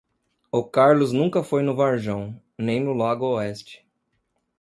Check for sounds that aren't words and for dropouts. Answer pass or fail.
pass